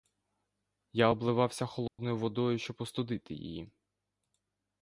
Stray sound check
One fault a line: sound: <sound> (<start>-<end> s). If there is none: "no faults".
sound: dropout (1.9-2.0 s)